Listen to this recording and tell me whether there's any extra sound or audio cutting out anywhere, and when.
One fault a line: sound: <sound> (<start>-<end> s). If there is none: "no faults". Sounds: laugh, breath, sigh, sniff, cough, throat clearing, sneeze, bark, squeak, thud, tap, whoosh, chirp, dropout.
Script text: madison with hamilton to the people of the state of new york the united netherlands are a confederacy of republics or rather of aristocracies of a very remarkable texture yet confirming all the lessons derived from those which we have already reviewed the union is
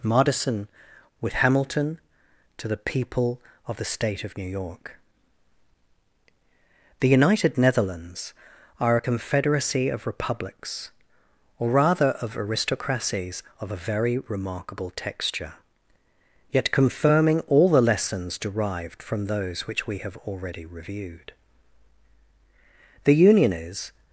no faults